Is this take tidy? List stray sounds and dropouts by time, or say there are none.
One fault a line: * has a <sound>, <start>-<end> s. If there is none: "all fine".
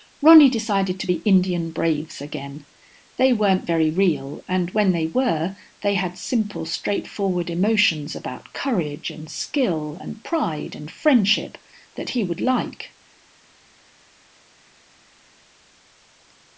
all fine